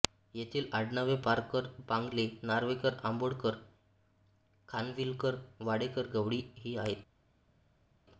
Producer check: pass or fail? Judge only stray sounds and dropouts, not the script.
pass